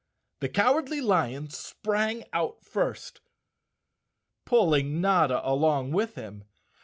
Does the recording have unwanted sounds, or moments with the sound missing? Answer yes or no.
no